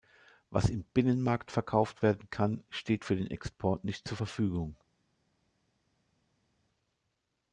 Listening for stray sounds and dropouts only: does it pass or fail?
pass